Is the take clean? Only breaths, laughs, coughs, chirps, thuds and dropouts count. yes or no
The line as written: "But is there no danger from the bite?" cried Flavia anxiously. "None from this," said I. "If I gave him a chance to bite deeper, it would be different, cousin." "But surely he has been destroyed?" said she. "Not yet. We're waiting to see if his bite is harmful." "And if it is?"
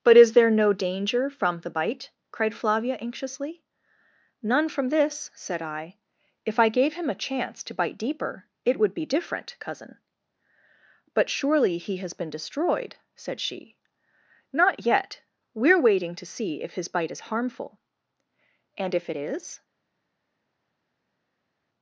yes